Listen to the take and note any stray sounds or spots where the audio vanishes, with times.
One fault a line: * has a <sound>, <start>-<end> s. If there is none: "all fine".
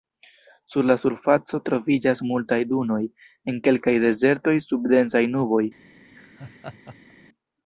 * has a laugh, 6.0-7.1 s